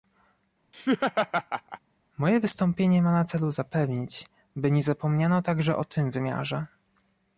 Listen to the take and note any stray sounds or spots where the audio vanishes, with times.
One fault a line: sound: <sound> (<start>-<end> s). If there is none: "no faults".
sound: laugh (0.7-1.8 s)